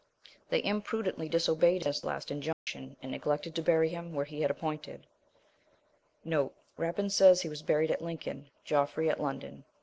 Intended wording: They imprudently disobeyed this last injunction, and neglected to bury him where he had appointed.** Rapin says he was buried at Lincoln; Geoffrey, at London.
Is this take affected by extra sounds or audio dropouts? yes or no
yes